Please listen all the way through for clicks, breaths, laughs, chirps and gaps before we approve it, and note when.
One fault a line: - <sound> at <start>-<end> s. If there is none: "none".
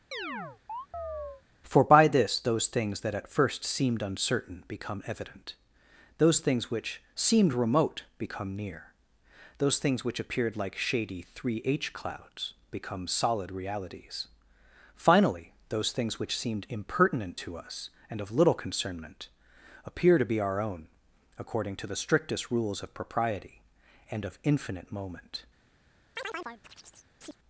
- chirp at 0.1-1.4 s
- chirp at 26.2-27.4 s